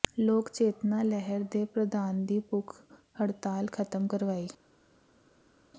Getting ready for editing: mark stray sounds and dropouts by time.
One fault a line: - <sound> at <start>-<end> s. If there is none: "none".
none